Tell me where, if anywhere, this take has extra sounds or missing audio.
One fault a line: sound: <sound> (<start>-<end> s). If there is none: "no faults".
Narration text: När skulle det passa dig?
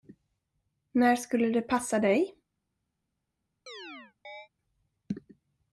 sound: chirp (3.7-4.5 s)